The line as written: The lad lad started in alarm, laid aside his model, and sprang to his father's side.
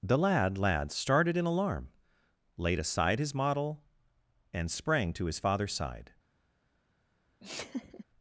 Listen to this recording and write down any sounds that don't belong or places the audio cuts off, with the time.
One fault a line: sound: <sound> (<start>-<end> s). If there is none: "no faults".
sound: laugh (7.4-8.0 s)